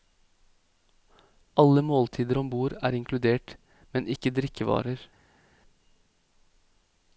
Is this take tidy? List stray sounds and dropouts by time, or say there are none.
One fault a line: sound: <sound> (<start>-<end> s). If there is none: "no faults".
no faults